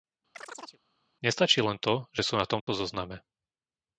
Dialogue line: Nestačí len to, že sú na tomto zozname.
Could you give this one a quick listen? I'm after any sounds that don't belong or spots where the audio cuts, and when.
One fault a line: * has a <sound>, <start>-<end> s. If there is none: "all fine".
* has a chirp, 0.3-0.8 s
* has a dropout, 2.6-2.7 s